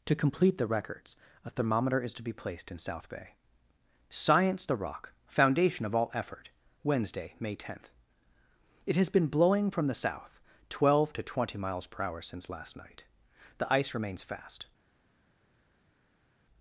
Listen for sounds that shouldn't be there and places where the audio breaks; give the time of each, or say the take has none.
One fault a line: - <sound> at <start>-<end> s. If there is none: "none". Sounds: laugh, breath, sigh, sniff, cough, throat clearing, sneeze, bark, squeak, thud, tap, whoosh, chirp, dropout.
none